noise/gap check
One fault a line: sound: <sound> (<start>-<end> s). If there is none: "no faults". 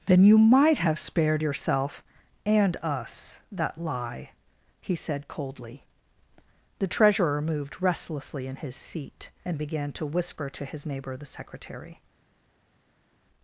no faults